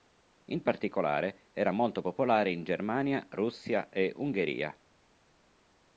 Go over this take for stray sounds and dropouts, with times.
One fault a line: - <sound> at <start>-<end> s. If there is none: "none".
none